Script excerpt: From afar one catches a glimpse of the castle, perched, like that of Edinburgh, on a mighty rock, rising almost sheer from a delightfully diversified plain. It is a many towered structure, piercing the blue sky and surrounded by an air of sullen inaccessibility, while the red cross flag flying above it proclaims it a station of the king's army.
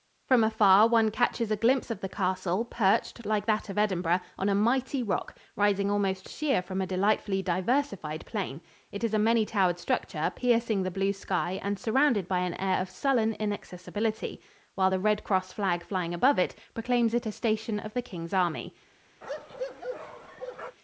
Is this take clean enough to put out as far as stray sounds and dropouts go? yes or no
no